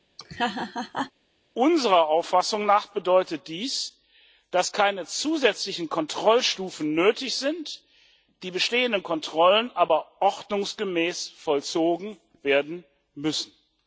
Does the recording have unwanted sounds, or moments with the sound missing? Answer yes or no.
yes